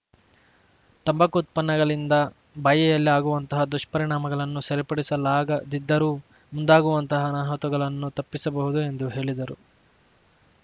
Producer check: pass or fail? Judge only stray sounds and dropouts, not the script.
pass